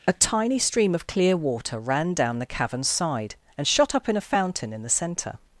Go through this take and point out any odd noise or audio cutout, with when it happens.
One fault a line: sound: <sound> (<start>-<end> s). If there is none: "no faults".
no faults